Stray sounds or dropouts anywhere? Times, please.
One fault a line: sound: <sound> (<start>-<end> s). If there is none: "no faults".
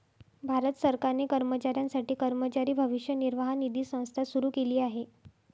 no faults